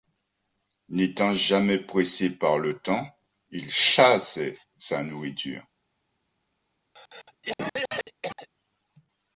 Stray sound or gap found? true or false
true